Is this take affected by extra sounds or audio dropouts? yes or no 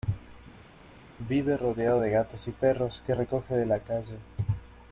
no